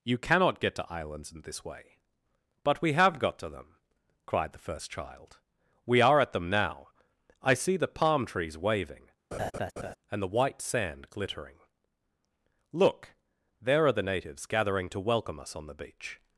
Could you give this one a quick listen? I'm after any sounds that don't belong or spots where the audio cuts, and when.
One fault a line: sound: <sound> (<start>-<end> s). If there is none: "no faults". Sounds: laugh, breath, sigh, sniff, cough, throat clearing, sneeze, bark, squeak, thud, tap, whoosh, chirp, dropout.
sound: laugh (9.3-10.0 s)